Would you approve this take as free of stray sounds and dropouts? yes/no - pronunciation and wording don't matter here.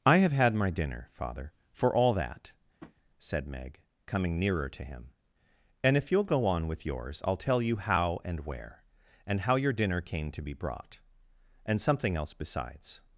no